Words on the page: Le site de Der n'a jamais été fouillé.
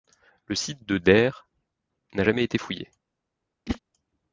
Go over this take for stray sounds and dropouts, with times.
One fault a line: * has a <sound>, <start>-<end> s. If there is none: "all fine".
* has a whoosh, 3.7-3.8 s